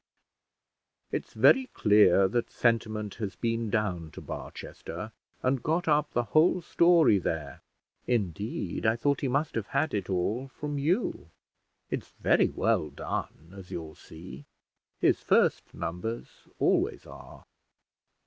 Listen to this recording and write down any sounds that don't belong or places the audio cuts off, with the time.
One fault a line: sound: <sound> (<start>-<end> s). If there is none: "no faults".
no faults